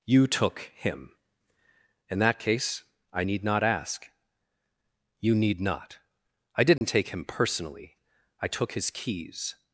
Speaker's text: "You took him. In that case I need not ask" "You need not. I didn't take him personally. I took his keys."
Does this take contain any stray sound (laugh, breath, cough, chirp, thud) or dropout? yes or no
yes